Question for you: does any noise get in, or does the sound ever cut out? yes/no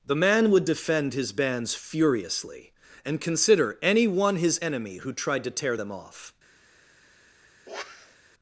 yes